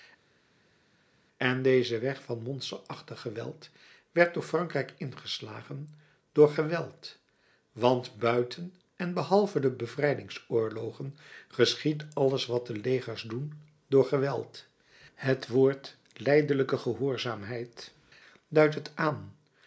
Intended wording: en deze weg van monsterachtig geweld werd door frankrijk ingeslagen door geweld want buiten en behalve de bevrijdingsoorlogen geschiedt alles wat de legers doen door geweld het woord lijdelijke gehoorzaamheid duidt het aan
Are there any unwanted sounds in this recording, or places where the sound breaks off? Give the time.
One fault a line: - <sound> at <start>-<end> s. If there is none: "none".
none